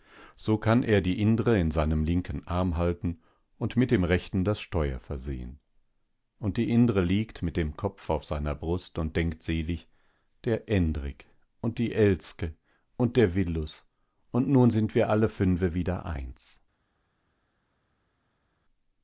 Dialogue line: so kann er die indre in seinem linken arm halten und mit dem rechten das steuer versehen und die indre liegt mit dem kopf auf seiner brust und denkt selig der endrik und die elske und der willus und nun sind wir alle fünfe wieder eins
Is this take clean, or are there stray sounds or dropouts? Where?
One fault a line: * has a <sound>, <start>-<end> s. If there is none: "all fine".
all fine